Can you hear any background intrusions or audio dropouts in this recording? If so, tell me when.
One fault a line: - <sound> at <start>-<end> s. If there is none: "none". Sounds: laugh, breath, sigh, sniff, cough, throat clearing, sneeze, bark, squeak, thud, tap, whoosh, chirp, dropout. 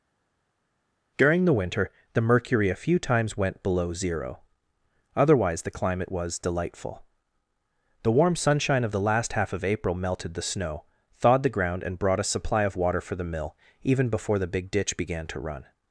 none